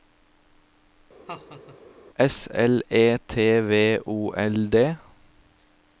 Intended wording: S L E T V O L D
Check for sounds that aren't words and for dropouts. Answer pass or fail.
fail